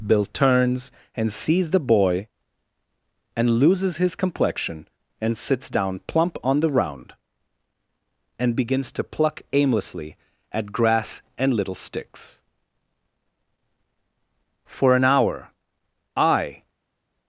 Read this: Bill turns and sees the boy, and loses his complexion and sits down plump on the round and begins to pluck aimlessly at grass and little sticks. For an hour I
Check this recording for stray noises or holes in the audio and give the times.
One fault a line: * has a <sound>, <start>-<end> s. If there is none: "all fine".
all fine